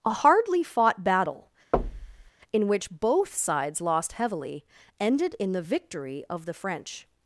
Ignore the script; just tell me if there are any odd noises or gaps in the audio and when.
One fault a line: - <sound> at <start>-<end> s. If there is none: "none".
- thud at 1.7-2.3 s